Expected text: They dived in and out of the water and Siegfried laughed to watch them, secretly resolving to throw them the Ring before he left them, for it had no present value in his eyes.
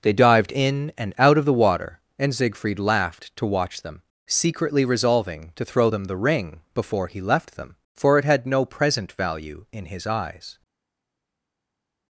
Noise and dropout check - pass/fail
pass